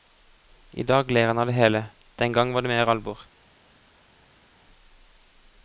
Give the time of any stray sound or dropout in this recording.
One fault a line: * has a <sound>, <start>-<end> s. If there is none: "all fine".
all fine